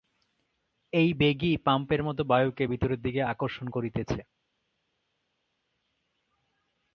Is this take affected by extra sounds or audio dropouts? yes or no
no